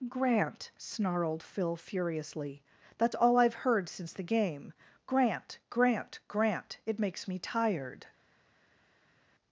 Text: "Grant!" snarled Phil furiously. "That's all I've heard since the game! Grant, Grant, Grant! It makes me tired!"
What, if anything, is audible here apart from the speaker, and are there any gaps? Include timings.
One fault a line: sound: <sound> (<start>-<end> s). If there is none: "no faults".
no faults